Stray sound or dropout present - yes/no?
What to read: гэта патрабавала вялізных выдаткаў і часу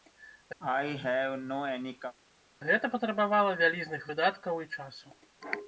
yes